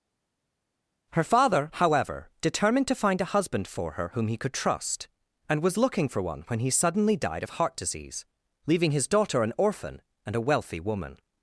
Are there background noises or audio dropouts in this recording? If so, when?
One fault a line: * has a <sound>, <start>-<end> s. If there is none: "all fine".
all fine